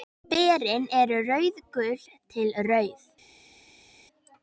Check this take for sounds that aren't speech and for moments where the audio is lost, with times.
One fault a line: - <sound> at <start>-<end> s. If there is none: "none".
none